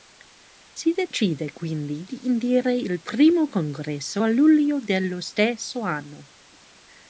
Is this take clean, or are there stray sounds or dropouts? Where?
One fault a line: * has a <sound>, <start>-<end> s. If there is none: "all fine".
all fine